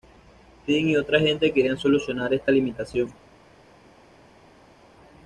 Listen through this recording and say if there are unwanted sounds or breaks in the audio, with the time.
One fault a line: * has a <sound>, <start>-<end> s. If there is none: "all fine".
all fine